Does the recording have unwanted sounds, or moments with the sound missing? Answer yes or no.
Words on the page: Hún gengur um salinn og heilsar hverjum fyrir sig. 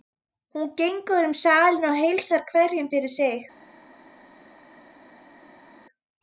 no